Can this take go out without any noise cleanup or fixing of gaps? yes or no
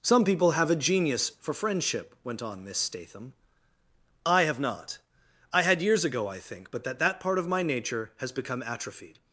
yes